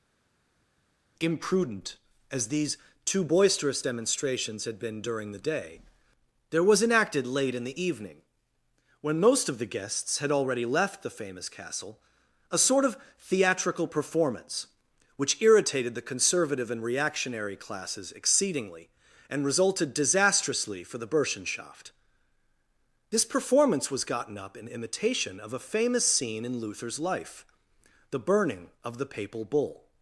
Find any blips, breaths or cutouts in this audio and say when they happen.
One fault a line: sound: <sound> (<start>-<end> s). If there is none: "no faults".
no faults